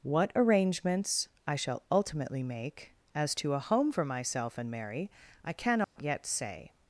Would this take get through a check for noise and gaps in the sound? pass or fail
fail